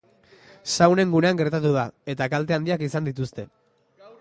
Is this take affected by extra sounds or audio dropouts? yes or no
no